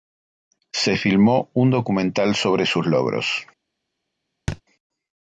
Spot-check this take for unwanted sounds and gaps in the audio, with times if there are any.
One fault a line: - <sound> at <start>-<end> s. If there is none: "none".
- thud at 4.5-4.6 s